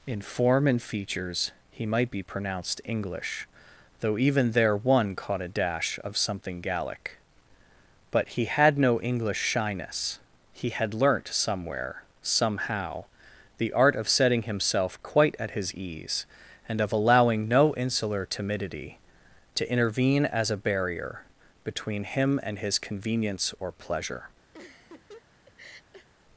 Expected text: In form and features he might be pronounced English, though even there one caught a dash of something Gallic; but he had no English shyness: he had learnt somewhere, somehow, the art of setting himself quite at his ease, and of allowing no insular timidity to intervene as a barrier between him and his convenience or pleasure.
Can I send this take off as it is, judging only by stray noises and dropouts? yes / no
no